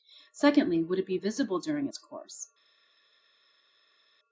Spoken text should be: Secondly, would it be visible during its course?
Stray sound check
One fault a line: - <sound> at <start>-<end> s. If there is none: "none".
none